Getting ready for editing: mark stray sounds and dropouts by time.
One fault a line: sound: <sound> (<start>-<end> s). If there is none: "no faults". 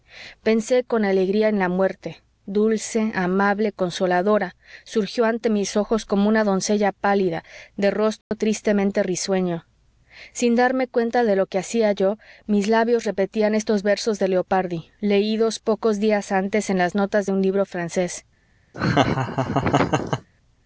sound: dropout (8.2-8.3 s)
sound: laugh (18.7-20.3 s)